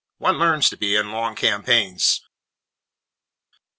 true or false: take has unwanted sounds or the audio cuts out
false